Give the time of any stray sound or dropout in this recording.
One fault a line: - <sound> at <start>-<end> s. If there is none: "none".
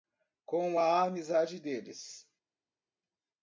none